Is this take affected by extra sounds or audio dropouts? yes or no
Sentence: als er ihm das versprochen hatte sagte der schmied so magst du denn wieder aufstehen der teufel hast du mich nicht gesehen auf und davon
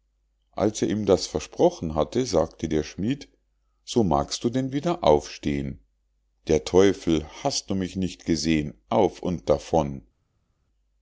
no